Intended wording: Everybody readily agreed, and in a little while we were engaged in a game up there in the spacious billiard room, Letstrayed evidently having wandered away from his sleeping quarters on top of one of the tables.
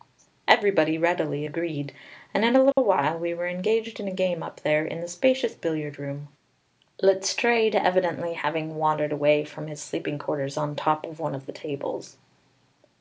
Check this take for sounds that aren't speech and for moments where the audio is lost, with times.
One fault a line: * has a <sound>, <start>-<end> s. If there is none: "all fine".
* has a dropout, 2.7-2.8 s